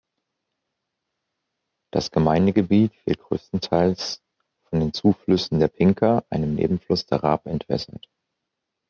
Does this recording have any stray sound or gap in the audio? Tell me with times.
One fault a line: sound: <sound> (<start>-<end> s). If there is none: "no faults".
no faults